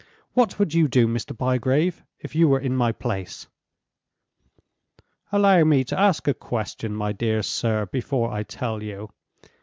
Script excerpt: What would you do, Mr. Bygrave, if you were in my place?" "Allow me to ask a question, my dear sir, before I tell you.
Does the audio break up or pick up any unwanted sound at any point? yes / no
no